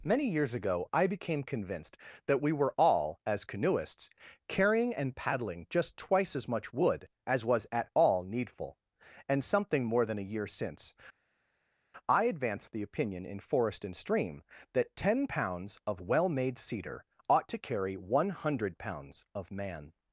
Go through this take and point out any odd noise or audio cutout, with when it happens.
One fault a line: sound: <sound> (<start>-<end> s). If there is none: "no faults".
no faults